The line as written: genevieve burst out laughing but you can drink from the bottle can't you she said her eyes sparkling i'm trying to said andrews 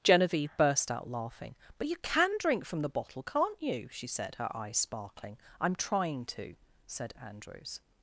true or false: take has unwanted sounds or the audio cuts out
false